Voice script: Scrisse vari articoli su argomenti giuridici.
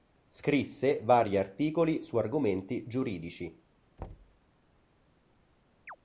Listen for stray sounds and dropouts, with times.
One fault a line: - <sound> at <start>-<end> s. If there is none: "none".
- thud at 4.0-4.4 s
- chirp at 5.9-6.0 s